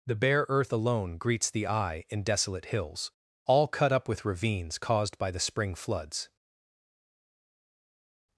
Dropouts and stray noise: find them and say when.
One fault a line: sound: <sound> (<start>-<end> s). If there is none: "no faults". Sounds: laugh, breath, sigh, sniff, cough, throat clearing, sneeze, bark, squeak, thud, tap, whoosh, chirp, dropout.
no faults